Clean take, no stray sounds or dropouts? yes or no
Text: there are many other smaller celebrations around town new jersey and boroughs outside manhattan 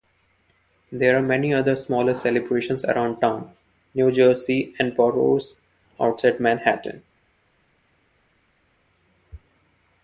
yes